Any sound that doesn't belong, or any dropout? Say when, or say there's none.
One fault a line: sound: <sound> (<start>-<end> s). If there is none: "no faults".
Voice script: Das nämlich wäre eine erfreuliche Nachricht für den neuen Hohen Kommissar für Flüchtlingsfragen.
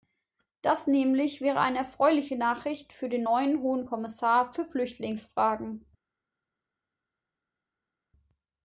no faults